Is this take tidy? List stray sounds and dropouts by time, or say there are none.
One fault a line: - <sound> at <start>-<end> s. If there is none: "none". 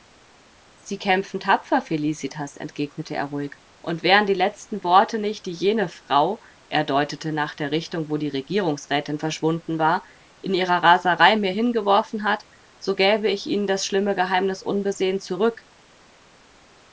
none